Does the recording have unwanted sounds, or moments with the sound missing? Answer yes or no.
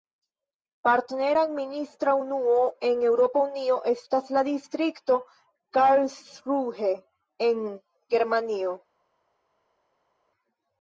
no